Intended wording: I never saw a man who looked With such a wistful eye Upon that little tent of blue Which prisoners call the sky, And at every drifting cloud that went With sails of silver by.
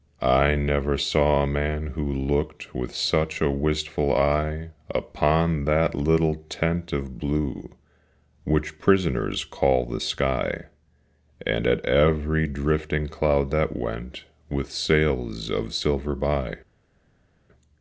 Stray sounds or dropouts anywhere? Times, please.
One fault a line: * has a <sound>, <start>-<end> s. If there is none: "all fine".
all fine